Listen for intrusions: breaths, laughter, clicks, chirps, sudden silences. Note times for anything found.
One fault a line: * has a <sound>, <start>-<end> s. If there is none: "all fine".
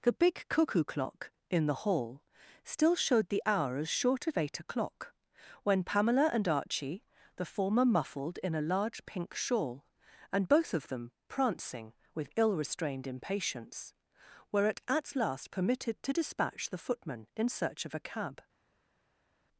all fine